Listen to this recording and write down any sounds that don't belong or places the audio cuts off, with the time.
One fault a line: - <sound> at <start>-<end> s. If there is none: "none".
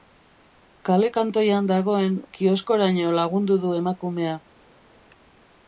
none